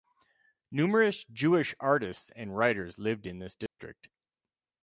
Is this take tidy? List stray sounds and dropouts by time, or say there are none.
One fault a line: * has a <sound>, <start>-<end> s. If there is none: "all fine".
* has a dropout, 3.7-3.8 s